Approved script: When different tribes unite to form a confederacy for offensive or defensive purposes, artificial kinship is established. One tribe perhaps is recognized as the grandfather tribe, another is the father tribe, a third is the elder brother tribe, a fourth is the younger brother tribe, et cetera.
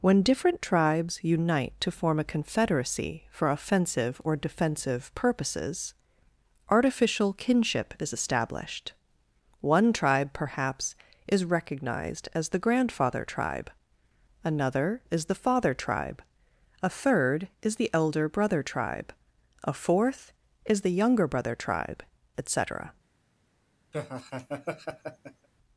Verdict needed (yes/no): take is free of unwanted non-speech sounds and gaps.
no